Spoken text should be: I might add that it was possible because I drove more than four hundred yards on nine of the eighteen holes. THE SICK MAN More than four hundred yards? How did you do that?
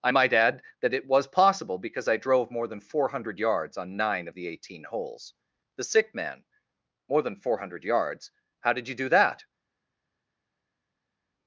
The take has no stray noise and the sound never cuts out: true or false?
true